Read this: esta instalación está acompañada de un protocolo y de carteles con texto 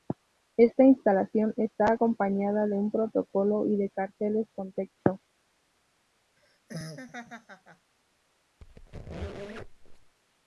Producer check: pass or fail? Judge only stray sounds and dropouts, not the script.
fail